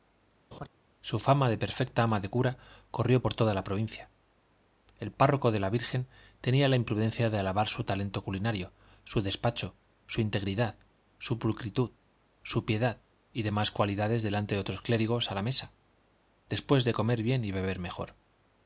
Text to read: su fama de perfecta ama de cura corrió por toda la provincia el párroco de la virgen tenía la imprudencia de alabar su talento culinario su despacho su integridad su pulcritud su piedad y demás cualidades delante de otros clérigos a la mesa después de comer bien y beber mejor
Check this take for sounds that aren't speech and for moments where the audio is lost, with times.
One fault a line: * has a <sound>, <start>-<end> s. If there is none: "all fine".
* has a laugh, 0.5-0.7 s